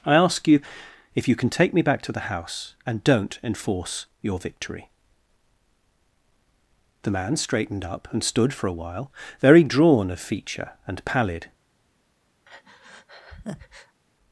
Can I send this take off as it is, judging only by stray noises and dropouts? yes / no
no